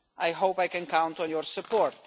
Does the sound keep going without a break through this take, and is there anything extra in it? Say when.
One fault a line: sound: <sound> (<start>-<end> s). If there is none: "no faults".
no faults